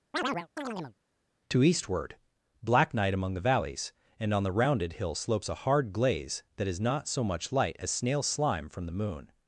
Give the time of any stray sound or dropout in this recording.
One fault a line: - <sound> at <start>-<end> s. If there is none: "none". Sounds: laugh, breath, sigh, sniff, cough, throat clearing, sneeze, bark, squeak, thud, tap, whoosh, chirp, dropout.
- chirp at 0.1-1.0 s